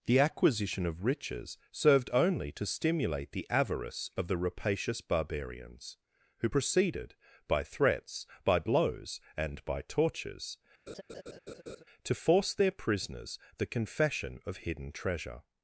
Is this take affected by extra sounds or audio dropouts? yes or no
yes